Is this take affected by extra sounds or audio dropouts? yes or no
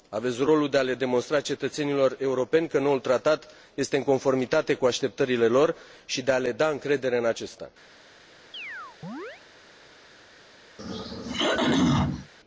yes